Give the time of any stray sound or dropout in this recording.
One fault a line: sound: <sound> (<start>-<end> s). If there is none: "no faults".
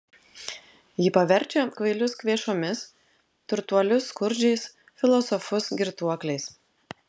no faults